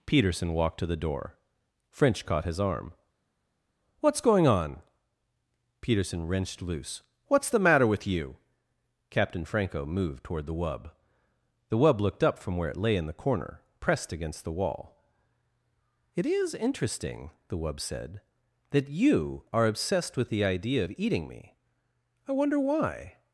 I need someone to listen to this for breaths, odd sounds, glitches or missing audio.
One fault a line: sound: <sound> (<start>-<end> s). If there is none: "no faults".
no faults